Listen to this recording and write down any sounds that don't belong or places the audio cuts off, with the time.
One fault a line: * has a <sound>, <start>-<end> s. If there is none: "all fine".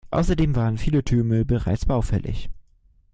all fine